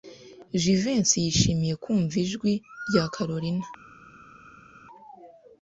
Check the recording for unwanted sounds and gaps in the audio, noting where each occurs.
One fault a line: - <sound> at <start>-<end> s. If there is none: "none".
none